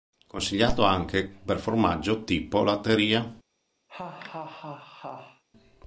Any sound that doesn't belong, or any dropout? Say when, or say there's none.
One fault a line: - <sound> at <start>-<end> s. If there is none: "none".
- laugh at 3.9-5.4 s